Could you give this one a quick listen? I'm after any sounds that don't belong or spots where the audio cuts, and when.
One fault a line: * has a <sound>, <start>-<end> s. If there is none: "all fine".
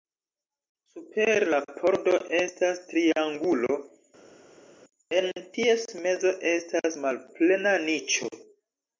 all fine